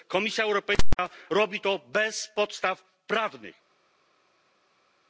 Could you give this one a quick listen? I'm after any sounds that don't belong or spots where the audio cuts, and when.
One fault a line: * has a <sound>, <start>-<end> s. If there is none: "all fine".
all fine